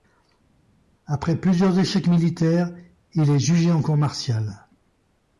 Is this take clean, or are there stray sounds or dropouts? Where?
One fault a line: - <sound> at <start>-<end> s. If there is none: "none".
none